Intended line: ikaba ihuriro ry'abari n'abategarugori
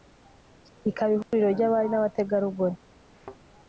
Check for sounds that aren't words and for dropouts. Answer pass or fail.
fail